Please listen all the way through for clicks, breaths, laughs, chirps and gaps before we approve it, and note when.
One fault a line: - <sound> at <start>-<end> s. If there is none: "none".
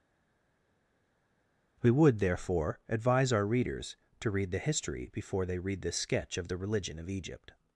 none